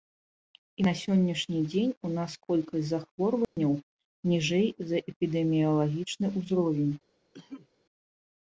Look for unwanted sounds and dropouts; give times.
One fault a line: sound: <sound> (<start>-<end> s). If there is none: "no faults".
sound: dropout (3.4-3.6 s)
sound: cough (7.3-7.7 s)